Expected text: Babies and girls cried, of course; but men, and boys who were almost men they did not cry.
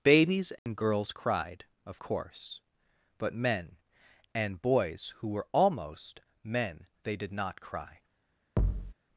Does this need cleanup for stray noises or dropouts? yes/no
yes